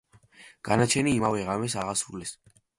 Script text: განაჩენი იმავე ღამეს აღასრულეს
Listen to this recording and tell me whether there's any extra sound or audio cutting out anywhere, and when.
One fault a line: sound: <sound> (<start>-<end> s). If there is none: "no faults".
no faults